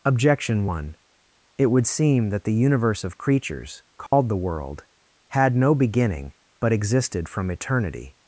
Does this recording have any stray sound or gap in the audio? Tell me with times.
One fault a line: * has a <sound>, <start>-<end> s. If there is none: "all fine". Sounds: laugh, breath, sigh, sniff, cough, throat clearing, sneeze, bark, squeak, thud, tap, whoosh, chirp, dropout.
* has a dropout, 4.1-4.1 s